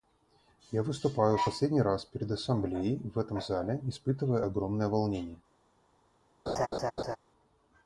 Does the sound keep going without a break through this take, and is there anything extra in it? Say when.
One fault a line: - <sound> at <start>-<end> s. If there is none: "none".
- laugh at 6.5-7.2 s